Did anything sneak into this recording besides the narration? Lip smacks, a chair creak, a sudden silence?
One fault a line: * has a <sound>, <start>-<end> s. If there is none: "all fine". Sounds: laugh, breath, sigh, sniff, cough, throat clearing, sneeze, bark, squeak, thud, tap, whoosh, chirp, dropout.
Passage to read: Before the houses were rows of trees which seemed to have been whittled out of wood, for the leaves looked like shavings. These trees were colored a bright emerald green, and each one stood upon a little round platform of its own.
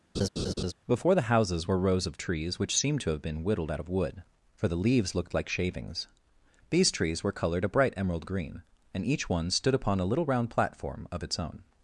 * has a laugh, 0.1-0.7 s